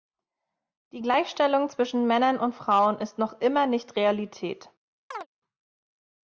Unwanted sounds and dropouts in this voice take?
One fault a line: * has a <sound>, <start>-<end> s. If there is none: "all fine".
* has a chirp, 5.1-5.3 s